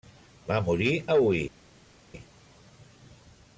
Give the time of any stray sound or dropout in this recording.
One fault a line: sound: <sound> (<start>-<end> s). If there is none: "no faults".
no faults